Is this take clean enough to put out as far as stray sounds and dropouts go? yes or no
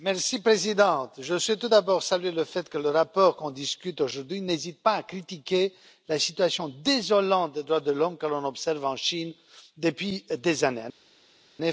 yes